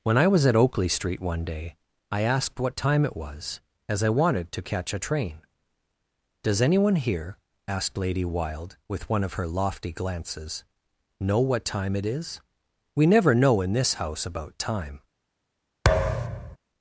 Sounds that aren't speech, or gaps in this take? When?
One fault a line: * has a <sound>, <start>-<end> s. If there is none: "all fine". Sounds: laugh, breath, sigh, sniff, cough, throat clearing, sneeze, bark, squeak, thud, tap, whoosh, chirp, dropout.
* has a thud, 15.8-16.6 s